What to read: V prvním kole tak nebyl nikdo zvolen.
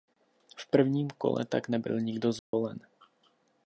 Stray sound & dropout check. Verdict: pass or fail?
fail